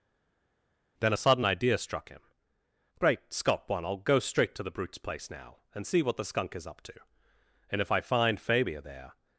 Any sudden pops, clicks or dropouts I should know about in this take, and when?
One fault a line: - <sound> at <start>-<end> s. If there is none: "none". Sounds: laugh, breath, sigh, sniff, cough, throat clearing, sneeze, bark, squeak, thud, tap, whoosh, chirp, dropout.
none